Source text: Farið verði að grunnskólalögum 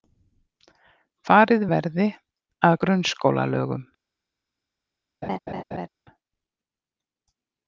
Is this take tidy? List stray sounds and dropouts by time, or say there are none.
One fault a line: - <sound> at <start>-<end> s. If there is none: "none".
- laugh at 5.2-5.9 s